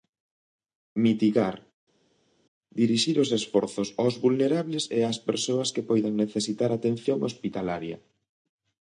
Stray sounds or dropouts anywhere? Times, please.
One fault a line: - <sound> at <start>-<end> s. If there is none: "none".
none